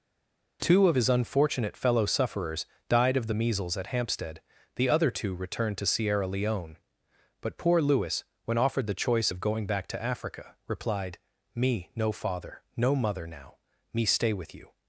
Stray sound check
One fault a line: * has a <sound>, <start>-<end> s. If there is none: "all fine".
all fine